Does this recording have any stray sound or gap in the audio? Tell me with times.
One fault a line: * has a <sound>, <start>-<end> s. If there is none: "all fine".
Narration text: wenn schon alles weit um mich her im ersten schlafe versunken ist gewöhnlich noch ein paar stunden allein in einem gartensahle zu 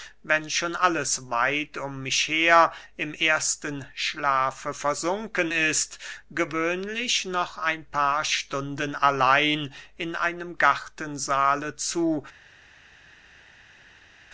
all fine